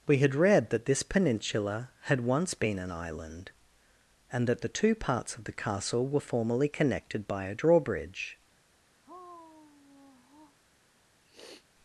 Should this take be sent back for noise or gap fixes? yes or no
yes